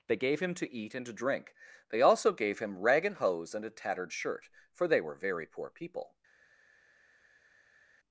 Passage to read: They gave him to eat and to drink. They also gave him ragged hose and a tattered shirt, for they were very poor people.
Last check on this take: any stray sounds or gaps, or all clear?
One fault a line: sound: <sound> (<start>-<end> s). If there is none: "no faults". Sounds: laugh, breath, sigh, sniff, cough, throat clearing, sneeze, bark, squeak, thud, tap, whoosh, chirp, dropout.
no faults